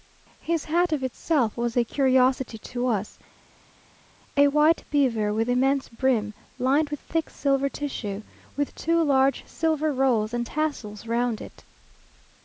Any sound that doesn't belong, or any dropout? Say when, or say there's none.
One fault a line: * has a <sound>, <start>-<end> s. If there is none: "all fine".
all fine